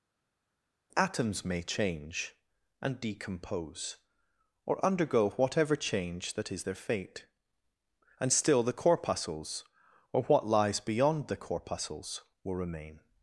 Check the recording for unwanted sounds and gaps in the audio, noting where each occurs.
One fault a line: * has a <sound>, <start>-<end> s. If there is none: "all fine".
all fine